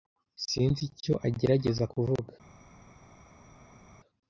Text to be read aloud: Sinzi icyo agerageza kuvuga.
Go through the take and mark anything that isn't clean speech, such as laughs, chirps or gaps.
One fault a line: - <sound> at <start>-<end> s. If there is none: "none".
none